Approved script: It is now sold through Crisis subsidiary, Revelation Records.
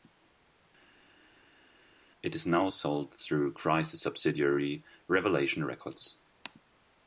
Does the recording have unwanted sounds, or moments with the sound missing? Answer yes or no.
no